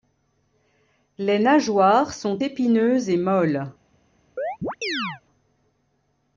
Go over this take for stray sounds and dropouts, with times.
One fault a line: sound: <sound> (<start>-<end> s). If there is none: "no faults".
sound: chirp (4.4-5.2 s)